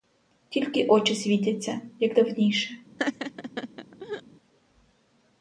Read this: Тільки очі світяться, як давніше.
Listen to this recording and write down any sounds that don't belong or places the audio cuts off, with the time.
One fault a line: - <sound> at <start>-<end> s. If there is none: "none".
- laugh at 3.0-4.2 s